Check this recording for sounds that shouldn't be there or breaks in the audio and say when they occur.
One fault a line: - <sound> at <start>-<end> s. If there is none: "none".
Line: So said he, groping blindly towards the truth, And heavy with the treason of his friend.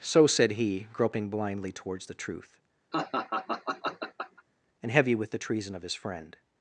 - laugh at 2.9-4.4 s